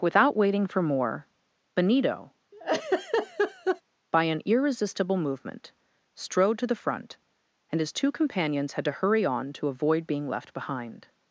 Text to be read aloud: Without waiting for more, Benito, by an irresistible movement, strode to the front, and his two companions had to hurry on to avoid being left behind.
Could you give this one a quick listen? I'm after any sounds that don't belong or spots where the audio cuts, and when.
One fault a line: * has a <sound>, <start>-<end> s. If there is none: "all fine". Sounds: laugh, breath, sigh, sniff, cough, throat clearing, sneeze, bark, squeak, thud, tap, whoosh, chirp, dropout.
* has a laugh, 2.5-3.8 s